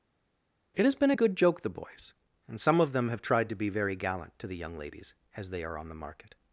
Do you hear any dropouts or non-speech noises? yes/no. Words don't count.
no